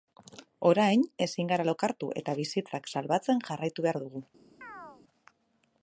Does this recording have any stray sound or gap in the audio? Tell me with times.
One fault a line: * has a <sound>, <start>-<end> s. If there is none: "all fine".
* has a chirp, 4.6-5.0 s